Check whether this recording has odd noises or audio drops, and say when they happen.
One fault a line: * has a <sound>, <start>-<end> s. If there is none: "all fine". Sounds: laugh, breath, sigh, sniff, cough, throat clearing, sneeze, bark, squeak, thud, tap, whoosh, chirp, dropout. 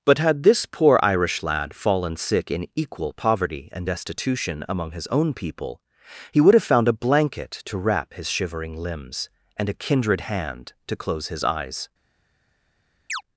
* has a chirp, 13.1-13.2 s